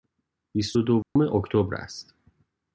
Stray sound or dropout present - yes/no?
yes